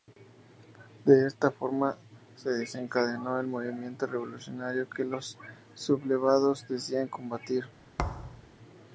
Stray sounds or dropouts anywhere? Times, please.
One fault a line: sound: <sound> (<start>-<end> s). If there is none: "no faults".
sound: thud (8.0-8.5 s)